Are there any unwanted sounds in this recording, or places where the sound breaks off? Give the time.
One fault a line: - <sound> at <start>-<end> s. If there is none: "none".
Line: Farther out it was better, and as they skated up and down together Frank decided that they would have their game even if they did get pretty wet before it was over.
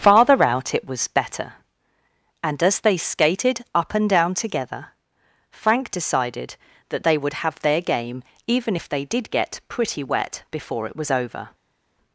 none